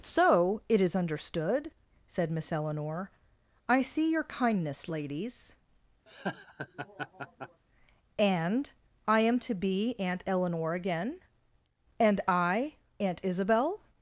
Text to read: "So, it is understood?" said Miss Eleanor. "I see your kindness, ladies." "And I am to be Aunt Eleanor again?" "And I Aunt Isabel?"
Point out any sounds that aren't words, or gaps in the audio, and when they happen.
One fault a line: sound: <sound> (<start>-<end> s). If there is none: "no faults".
sound: laugh (6.1-7.6 s)